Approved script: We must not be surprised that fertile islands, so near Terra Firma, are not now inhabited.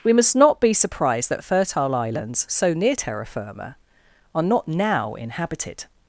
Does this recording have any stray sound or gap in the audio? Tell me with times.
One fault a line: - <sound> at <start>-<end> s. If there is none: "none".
none